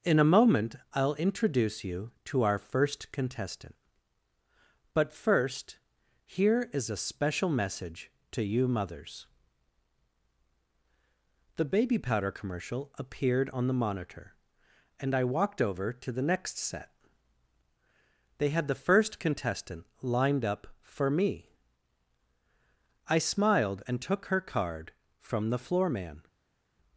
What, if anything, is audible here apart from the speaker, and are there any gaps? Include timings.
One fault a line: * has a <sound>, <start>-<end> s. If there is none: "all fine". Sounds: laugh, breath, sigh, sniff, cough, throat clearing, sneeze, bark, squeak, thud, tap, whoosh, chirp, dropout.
all fine